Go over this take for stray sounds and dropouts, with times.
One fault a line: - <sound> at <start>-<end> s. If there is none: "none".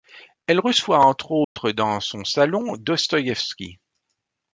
- dropout at 1.4-1.6 s